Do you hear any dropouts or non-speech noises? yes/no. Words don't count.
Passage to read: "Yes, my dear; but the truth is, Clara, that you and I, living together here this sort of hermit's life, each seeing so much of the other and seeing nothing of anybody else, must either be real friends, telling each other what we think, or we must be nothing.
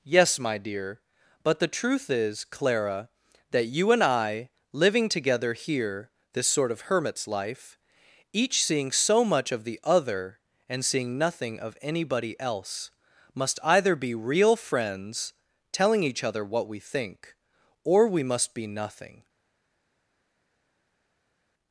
no